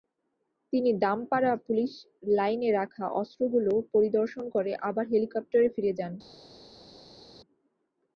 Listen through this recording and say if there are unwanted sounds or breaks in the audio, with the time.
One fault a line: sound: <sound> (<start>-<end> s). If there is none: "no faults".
no faults